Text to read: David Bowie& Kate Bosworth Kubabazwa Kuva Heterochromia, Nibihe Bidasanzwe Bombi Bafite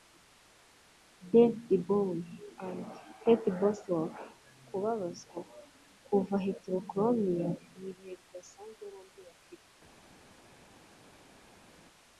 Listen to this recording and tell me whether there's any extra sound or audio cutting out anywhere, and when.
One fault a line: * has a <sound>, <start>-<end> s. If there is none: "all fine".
all fine